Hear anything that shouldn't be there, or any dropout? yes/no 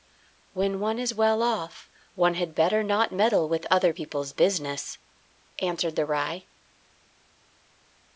no